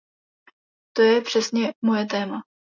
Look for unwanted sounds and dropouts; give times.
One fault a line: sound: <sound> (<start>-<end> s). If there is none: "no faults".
no faults